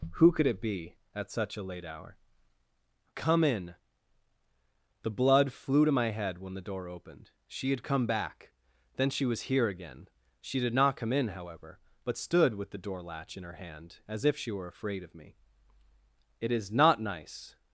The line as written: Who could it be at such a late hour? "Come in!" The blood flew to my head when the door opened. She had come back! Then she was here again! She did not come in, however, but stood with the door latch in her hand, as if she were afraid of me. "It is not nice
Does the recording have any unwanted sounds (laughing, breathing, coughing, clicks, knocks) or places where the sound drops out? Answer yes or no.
no